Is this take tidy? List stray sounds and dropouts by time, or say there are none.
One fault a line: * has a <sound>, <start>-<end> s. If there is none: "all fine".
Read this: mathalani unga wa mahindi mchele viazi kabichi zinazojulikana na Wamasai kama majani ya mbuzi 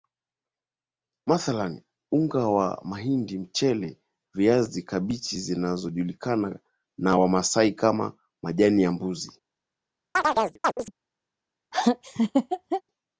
* has a chirp, 10.2-10.9 s
* has a laugh, 11.7-12.8 s